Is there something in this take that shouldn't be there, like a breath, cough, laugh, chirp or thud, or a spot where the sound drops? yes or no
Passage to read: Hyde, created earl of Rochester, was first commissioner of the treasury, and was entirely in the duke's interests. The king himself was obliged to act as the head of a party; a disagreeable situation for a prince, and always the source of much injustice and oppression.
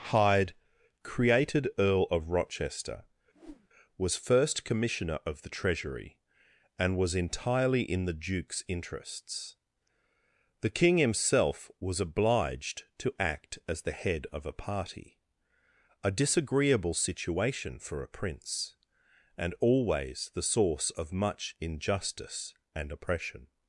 yes